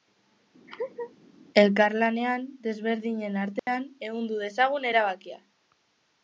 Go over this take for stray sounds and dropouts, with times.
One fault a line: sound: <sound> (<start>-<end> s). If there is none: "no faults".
sound: laugh (0.7-1.1 s)
sound: dropout (3.6-3.7 s)